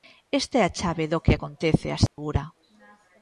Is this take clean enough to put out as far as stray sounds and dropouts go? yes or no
no